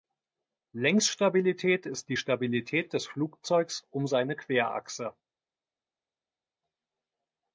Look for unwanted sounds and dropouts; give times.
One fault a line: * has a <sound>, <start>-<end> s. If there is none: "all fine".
all fine